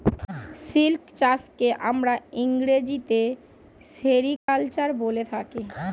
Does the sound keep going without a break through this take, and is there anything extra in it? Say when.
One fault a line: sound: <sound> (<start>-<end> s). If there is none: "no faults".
sound: dropout (4.4-4.5 s)